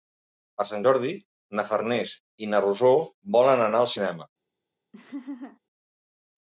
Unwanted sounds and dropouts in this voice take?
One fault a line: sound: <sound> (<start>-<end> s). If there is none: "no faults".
sound: laugh (4.9-5.6 s)